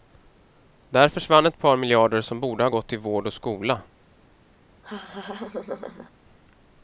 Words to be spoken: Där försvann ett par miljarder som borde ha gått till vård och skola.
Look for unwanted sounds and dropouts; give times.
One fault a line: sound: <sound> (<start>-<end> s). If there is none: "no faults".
sound: laugh (4.8-6.1 s)